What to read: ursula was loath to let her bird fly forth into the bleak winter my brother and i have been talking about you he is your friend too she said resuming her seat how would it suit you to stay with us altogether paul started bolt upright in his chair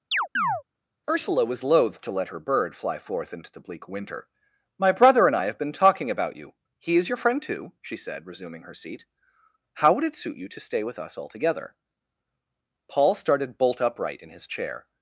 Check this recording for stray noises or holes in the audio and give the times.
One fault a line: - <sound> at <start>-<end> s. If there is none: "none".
- chirp at 0.1-0.6 s